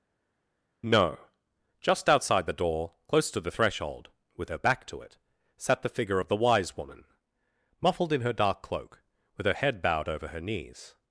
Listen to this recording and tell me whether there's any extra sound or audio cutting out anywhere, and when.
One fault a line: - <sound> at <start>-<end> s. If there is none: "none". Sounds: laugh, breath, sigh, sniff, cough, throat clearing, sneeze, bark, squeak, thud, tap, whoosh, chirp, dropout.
none